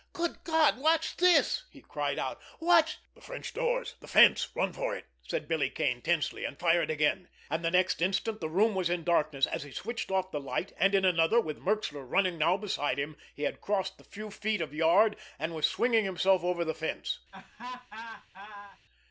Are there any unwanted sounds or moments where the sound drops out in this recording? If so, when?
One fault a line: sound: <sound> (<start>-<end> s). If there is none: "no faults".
sound: laugh (17.3-18.8 s)